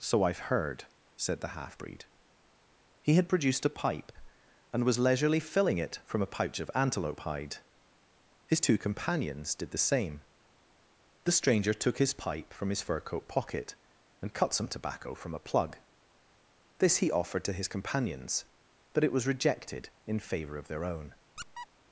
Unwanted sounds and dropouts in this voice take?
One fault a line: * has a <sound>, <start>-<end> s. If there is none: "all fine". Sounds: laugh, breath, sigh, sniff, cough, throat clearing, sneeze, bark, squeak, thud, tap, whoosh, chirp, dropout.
* has a squeak, 21.4-21.7 s